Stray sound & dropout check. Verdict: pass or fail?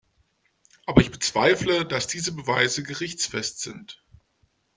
pass